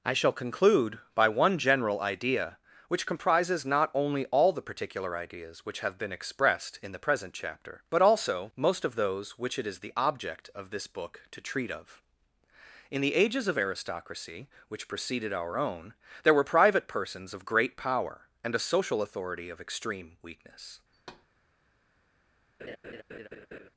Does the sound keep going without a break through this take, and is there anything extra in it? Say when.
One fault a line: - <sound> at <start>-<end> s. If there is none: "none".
- thud at 20.9-21.3 s
- laugh at 22.6-23.7 s